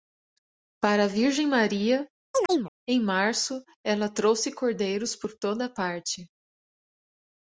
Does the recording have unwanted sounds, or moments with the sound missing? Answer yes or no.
yes